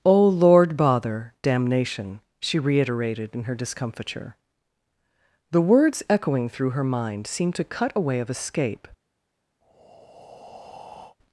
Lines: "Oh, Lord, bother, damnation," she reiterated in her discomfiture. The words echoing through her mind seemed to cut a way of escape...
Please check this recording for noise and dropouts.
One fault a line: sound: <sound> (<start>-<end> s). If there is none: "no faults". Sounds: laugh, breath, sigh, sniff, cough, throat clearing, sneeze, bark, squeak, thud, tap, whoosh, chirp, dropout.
sound: breath (9.6-11.2 s)